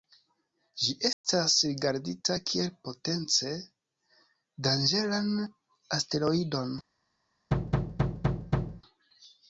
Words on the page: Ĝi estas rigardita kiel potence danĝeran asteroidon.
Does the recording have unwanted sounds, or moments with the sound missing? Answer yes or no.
yes